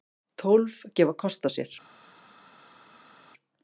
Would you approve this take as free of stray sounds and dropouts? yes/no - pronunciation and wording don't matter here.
yes